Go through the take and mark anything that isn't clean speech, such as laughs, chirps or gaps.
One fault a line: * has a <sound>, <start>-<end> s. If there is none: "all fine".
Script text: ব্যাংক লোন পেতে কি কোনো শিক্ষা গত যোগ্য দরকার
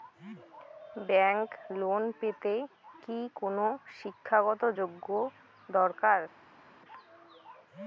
all fine